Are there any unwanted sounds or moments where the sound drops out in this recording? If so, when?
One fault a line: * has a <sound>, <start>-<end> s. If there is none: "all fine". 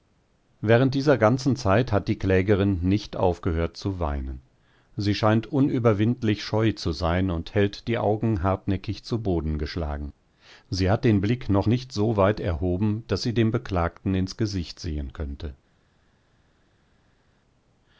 all fine